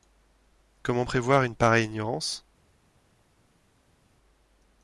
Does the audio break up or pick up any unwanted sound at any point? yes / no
no